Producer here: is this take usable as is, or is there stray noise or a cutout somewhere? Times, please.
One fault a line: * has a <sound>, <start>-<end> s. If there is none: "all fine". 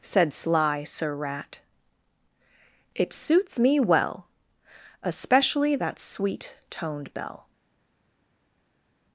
all fine